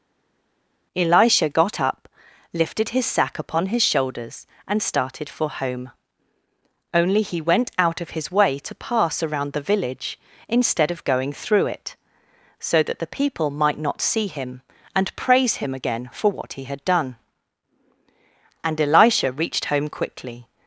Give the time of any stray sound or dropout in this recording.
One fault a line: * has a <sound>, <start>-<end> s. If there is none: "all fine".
all fine